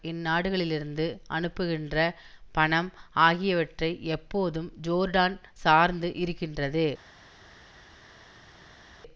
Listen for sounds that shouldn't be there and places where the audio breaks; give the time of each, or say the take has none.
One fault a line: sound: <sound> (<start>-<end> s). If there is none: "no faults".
no faults